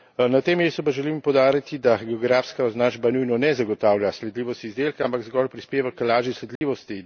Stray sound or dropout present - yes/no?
yes